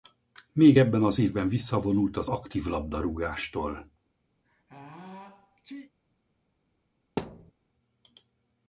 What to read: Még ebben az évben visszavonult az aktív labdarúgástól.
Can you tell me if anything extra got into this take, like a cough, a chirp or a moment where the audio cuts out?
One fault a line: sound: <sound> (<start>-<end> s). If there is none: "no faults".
sound: sneeze (4.4-5.9 s)
sound: thud (7.2-7.5 s)